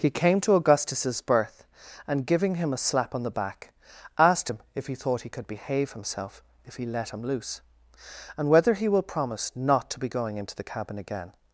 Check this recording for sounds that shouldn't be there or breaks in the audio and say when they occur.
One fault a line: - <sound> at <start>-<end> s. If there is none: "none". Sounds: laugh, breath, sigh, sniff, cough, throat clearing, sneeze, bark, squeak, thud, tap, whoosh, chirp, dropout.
none